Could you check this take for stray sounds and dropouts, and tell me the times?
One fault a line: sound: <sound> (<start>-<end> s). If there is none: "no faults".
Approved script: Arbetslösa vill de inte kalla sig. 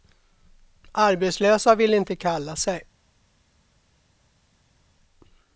no faults